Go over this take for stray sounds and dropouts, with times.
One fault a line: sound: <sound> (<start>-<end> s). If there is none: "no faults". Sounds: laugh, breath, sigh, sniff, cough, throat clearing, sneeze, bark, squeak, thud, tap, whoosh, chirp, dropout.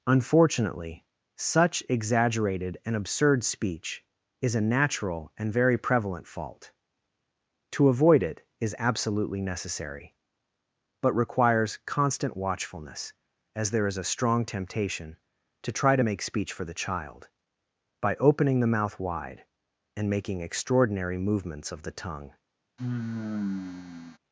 sound: sigh (22.8-24.2 s)